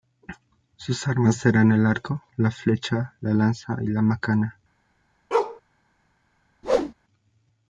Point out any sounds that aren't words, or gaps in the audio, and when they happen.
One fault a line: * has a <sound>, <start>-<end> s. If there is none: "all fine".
* has a bark, 5.3-5.6 s
* has a whoosh, 6.6-6.9 s